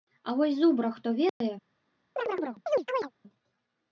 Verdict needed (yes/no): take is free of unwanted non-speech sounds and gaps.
no